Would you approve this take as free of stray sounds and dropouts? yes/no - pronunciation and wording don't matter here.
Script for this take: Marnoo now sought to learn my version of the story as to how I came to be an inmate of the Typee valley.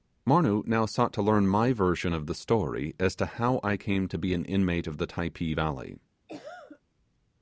no